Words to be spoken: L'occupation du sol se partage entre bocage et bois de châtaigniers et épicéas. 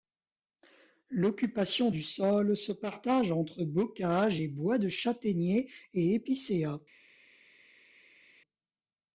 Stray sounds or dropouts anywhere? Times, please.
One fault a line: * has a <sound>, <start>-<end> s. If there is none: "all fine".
all fine